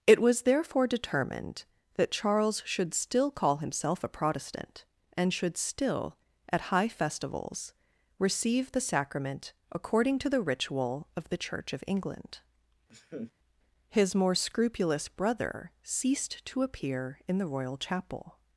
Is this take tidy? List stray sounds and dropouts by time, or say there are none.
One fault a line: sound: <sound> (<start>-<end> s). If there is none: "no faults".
sound: laugh (12.9-13.3 s)